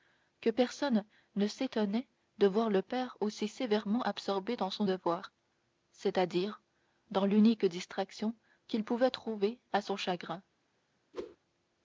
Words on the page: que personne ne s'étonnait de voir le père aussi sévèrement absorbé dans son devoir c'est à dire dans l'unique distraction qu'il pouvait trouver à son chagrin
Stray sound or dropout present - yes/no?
yes